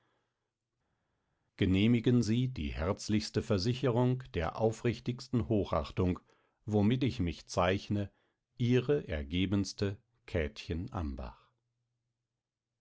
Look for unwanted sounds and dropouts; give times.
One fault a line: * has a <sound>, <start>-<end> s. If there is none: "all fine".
all fine